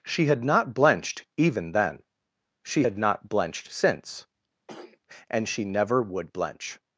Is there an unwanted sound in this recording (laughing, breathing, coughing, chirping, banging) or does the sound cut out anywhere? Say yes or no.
yes